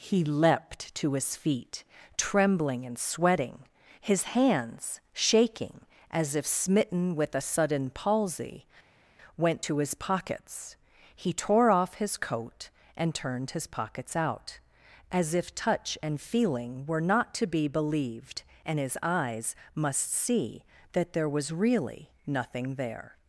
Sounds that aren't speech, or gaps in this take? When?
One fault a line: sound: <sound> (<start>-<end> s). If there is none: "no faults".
no faults